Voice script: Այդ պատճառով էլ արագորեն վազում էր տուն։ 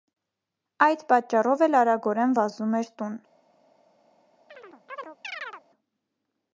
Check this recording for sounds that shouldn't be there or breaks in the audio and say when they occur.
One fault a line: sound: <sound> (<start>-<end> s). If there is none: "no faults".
sound: chirp (4.5-5.6 s)